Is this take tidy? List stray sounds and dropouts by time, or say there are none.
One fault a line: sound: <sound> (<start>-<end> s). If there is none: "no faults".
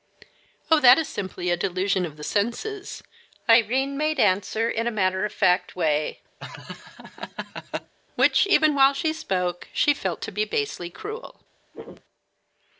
sound: laugh (6.4-7.9 s)
sound: throat clearing (11.7-12.0 s)